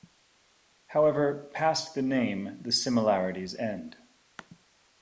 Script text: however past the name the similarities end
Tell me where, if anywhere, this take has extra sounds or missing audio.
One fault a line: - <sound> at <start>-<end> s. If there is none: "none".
none